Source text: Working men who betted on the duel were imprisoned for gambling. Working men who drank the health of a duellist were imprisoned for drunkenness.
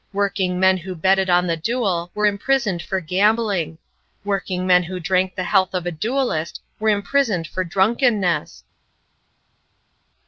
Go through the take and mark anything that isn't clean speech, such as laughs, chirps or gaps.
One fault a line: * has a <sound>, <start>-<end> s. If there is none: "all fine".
all fine